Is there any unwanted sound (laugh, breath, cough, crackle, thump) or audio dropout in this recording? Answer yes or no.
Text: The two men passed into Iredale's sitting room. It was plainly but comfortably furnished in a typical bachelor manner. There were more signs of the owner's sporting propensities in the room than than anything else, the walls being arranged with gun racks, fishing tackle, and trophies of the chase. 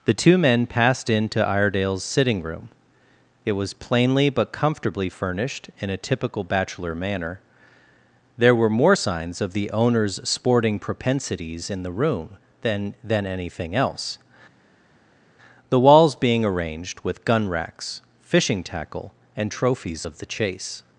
no